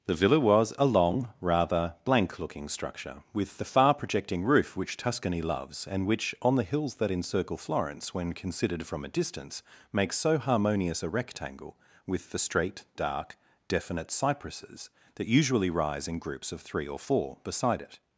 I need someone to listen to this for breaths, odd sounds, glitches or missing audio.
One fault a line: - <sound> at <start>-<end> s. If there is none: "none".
none